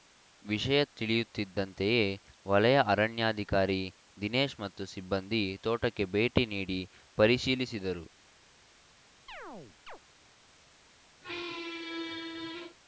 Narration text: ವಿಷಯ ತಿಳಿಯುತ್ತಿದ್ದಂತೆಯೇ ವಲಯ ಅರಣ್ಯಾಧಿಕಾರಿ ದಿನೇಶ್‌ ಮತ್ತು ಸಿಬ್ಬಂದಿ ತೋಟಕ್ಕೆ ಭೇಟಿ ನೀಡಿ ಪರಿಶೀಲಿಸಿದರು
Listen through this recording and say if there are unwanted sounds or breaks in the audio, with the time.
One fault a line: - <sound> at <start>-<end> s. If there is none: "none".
- chirp at 9.3-10.0 s
- squeak at 11.2-12.8 s